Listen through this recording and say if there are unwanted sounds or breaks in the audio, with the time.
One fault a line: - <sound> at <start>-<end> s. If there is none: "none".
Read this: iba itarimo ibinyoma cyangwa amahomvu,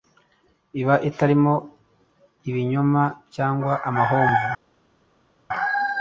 none